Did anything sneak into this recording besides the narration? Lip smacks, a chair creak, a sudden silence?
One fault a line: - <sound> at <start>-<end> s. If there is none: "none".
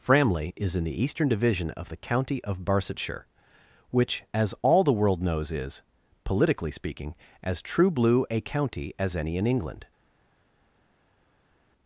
none